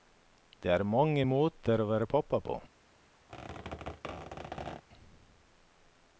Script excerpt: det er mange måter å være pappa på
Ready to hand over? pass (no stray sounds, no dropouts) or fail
fail